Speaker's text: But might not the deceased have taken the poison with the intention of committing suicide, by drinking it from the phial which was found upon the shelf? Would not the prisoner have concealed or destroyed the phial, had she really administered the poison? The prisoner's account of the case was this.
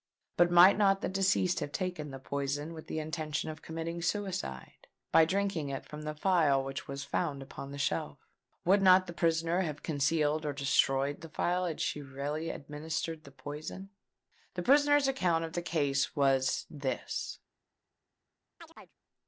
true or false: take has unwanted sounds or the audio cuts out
true